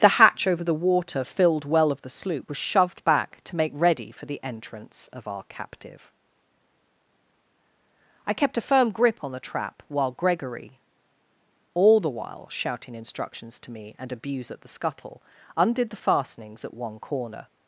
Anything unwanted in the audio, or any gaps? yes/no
no